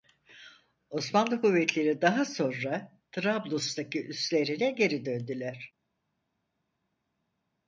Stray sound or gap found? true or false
false